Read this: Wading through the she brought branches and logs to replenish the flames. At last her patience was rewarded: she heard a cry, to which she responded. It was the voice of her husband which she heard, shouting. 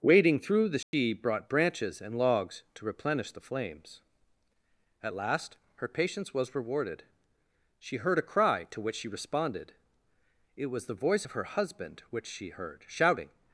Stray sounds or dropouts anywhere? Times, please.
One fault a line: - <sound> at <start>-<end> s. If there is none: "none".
- dropout at 0.8-0.9 s